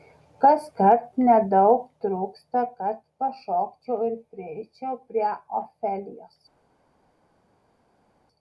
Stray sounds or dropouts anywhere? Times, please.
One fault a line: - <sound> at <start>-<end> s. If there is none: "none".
none